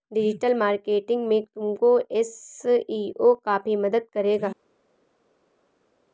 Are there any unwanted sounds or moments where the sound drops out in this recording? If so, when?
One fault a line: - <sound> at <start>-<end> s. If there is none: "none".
none